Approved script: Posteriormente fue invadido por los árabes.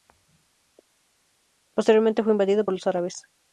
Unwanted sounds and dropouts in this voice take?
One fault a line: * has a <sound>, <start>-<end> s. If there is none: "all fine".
all fine